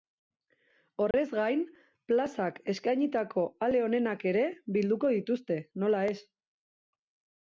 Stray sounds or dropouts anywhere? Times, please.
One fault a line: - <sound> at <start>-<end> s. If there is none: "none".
- dropout at 1.1-1.1 s